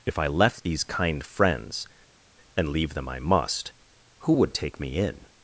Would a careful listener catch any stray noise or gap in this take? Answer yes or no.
no